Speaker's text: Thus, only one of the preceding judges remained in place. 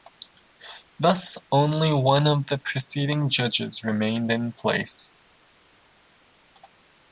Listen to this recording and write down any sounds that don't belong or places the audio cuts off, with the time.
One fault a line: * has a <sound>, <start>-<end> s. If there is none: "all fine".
all fine